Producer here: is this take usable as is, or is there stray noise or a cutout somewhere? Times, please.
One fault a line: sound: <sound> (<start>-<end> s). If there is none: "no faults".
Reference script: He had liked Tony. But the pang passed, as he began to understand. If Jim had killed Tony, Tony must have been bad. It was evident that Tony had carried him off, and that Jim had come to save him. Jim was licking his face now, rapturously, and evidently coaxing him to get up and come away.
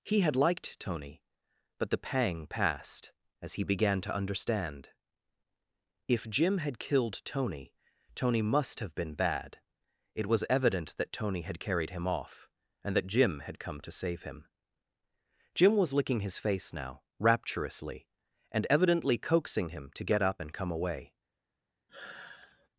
sound: sigh (21.9-22.7 s)